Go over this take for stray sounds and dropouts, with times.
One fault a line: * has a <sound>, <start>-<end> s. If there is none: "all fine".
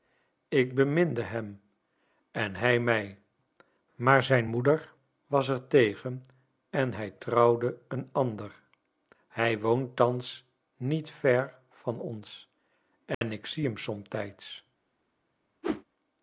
* has a dropout, 13.1-13.2 s
* has a whoosh, 15.6-15.8 s